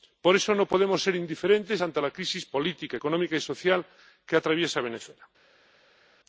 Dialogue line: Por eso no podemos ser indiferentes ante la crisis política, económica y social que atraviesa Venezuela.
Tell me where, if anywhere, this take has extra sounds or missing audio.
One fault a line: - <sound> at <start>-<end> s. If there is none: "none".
none